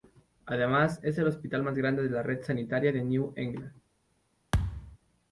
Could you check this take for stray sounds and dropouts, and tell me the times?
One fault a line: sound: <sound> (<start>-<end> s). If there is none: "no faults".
sound: thud (4.5-5.0 s)